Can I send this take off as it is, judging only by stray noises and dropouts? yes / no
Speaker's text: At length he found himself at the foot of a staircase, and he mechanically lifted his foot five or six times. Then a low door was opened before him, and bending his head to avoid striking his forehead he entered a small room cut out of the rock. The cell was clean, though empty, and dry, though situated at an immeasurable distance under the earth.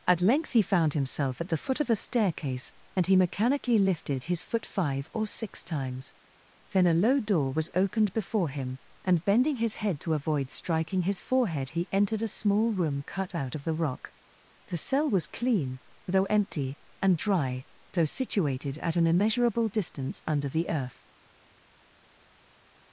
yes